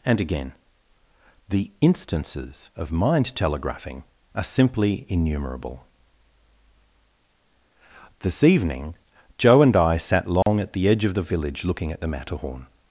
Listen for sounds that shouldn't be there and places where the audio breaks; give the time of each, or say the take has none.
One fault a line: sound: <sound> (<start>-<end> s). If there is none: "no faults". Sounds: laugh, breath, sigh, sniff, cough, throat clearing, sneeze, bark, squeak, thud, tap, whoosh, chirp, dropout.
sound: dropout (10.4-10.5 s)